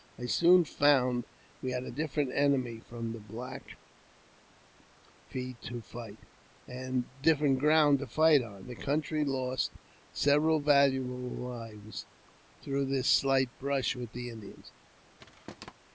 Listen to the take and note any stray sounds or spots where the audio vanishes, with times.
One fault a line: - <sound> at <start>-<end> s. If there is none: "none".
- thud at 15.2-15.7 s